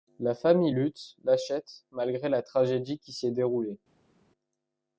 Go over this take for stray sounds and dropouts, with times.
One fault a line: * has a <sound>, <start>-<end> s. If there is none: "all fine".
all fine